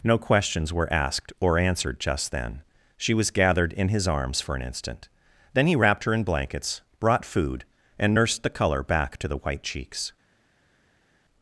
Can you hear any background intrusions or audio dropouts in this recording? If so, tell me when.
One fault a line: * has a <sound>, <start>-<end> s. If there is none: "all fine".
all fine